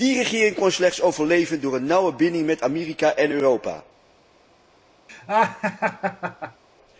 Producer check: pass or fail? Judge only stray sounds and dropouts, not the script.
fail